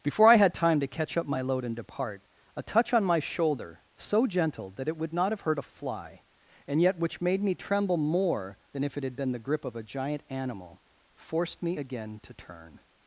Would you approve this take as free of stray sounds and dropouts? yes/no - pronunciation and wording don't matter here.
yes